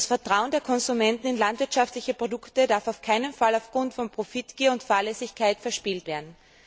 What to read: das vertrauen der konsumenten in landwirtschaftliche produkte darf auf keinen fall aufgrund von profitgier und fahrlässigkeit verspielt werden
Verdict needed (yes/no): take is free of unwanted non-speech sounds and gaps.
yes